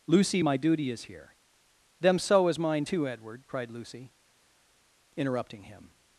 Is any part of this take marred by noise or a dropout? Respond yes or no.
no